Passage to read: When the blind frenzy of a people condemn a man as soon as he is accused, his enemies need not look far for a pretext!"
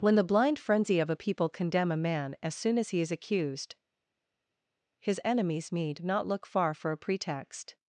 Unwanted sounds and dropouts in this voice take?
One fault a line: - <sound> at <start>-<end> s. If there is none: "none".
none